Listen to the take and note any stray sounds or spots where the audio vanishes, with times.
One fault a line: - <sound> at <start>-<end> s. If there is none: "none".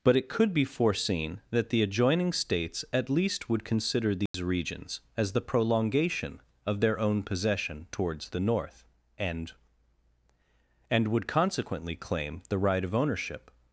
- dropout at 4.3-4.3 s